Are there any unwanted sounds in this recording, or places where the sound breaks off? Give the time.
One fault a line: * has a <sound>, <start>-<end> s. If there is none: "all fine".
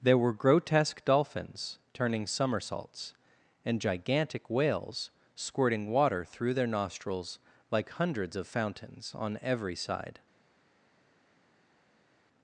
all fine